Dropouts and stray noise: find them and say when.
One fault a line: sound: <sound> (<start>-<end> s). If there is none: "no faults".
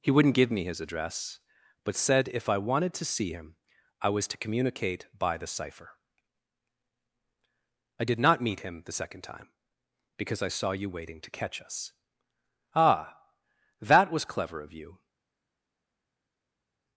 no faults